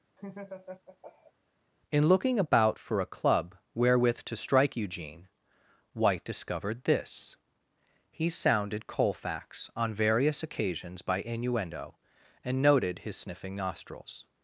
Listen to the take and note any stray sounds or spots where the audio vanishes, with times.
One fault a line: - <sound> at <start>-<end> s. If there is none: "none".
- laugh at 0.2-1.3 s